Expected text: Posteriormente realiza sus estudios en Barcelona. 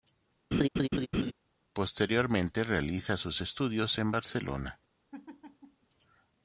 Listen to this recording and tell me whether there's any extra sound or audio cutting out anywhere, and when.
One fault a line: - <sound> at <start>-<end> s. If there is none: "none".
- laugh at 0.5-1.3 s
- laugh at 5.1-5.9 s